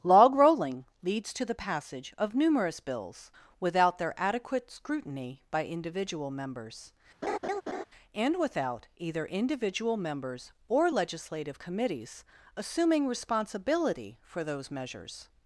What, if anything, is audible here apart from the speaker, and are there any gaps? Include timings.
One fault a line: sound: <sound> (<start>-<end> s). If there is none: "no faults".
sound: laugh (7.2-7.8 s)